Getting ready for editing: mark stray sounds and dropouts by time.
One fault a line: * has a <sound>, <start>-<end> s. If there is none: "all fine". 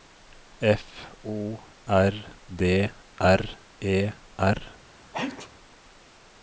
* has a sneeze, 5.1-5.5 s